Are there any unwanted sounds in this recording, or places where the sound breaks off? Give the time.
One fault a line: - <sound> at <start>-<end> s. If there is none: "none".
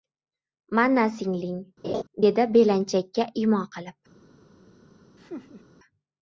- laugh at 1.8-2.0 s
- laugh at 5.2-5.6 s